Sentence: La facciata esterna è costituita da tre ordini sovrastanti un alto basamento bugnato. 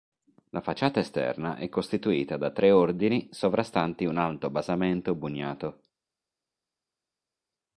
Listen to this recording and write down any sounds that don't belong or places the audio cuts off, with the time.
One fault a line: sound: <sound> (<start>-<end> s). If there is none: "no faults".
no faults